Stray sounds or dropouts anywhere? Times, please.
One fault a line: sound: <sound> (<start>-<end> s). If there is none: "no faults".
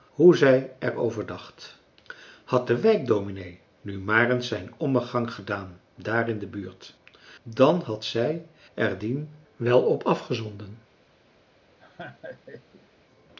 sound: laugh (11.8-12.9 s)